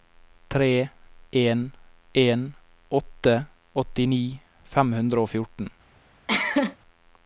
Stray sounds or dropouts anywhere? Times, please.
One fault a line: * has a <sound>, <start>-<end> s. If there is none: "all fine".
* has a cough, 6.3-6.8 s